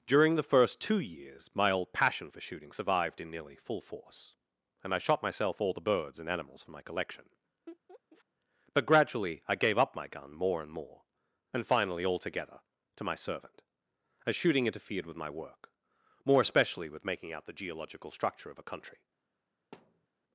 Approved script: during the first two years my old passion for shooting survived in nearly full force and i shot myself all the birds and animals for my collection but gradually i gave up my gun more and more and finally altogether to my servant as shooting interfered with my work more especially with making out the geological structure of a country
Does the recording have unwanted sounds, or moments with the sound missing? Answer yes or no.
yes